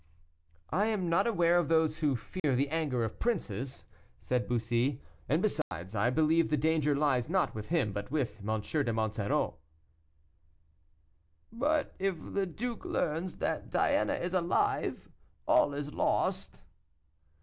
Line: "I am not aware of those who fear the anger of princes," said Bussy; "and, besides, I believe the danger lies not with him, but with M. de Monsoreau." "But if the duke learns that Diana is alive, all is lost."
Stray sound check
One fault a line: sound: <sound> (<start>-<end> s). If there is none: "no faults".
sound: dropout (2.4-2.4 s)
sound: dropout (5.6-5.7 s)